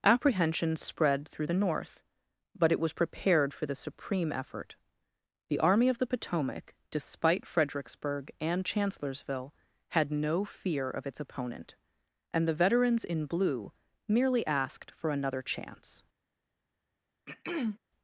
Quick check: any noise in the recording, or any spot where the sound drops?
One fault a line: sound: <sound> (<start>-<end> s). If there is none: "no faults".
sound: throat clearing (17.3-17.8 s)